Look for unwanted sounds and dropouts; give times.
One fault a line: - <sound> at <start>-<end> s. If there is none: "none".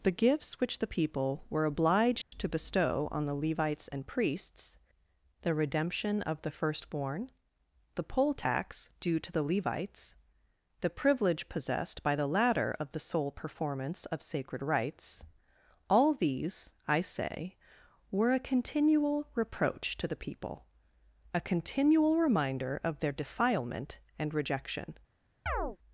- dropout at 2.2-2.3 s
- chirp at 25.5-25.8 s